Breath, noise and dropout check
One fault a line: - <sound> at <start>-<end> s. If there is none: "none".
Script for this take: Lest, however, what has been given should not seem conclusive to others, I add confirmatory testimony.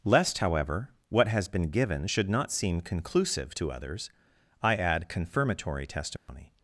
- dropout at 6.2-6.3 s